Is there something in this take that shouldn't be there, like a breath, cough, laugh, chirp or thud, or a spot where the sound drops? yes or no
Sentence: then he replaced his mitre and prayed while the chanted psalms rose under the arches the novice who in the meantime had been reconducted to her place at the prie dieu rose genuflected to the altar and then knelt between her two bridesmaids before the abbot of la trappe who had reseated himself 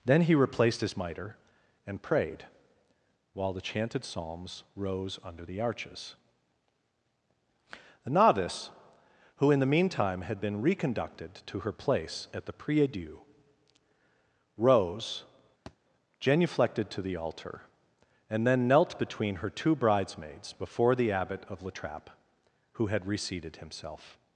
yes